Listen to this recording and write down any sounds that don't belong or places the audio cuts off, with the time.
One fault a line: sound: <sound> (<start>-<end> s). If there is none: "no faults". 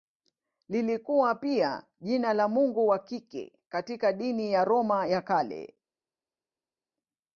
no faults